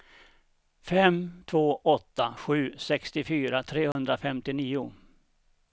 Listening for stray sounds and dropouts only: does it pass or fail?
fail